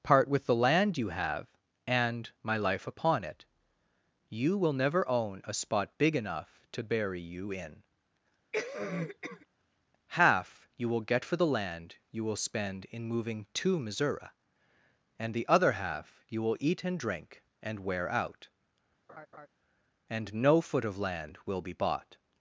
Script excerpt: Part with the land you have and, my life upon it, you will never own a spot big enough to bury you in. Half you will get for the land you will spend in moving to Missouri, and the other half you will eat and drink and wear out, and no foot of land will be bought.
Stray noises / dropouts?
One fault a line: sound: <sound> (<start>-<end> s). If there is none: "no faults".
sound: cough (8.5-9.5 s)
sound: laugh (19.1-19.5 s)